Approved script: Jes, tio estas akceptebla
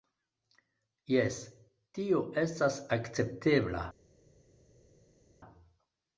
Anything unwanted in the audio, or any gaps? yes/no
no